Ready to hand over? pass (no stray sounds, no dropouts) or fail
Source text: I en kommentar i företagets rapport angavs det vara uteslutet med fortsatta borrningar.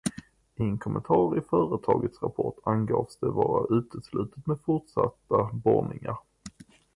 pass